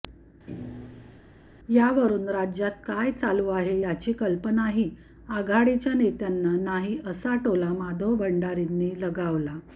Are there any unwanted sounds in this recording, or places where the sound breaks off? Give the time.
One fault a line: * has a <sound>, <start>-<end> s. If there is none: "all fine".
* has a thud, 0.5-1.2 s